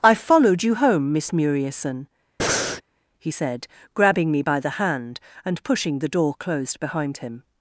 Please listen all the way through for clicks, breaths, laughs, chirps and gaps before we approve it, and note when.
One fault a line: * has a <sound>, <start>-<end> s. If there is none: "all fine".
* has a breath, 2.4-2.8 s